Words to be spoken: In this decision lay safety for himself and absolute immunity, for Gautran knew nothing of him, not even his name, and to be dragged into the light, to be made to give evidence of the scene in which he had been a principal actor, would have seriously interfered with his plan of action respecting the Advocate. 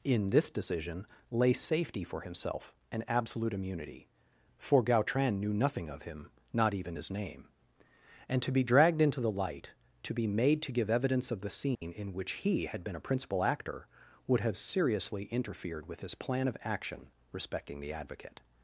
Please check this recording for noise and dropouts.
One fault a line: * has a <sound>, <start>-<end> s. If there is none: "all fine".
* has a dropout, 11.7-11.8 s